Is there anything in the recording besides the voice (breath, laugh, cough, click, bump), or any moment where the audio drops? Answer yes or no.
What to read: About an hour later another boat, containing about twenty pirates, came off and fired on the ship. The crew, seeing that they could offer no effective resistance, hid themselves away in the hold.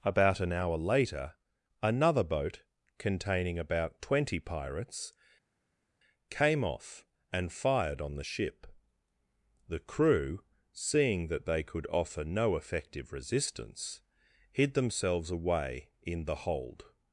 no